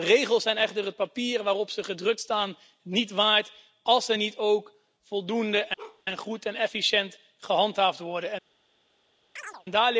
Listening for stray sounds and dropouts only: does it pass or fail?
fail